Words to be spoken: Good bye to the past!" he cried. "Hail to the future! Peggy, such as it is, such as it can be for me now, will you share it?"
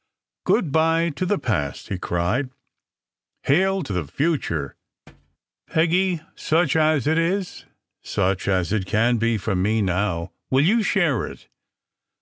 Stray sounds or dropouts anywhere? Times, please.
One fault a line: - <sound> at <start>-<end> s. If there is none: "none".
- thud at 5.1-5.4 s